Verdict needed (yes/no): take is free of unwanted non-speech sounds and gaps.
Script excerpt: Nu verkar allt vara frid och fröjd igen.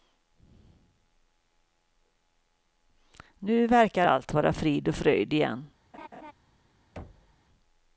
no